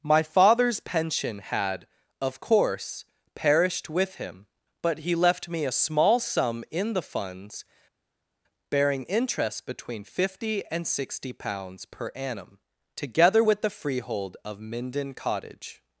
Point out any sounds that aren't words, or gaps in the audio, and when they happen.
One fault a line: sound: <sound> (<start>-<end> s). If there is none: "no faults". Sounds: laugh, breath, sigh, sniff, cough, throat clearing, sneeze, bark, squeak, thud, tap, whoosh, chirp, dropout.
no faults